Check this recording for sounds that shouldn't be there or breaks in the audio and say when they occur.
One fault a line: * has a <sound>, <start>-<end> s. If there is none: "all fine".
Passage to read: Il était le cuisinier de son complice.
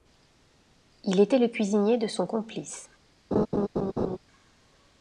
* has a laugh, 3.3-4.2 s